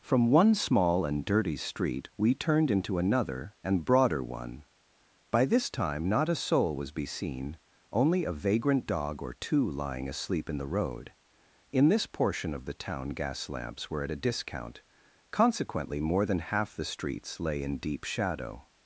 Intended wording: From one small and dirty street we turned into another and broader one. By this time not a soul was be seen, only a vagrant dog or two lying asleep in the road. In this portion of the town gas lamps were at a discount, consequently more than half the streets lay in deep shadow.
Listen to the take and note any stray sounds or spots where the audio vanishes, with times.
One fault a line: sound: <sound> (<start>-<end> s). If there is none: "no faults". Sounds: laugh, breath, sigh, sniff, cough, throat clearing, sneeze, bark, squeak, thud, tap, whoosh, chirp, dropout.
no faults